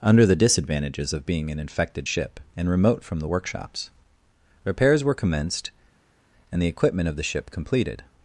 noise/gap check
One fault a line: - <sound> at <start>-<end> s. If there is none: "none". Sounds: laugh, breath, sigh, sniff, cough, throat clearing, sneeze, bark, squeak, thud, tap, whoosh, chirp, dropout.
none